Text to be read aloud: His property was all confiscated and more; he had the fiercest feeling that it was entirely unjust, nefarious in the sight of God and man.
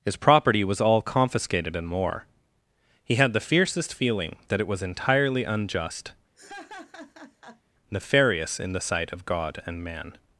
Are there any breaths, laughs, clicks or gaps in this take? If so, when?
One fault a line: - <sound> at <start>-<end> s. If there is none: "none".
- laugh at 6.4-7.6 s